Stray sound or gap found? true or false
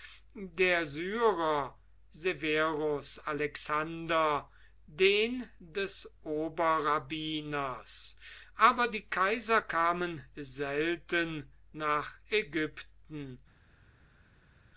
false